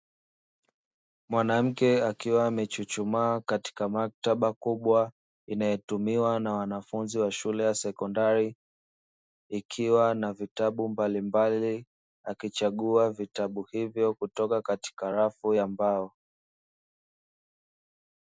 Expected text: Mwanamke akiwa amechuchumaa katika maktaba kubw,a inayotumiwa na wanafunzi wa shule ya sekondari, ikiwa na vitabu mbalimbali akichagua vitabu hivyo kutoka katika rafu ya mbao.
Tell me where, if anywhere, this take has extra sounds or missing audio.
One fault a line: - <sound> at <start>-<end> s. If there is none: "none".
none